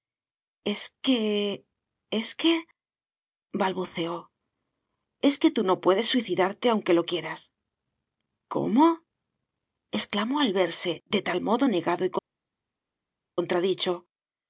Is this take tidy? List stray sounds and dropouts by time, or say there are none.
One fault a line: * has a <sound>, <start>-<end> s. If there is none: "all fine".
all fine